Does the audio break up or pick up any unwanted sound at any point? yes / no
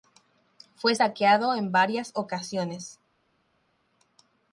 no